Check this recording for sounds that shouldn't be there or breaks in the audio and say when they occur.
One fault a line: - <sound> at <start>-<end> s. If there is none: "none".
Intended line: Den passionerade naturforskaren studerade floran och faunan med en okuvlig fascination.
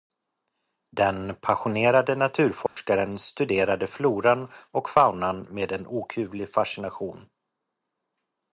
- dropout at 2.7-2.8 s